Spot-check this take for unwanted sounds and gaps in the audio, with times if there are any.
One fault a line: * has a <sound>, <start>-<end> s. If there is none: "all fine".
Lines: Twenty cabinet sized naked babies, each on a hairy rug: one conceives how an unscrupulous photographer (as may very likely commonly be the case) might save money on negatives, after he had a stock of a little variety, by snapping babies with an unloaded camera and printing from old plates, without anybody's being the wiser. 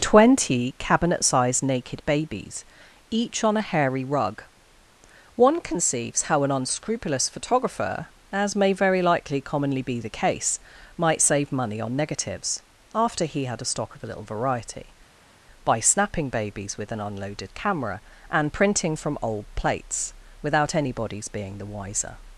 all fine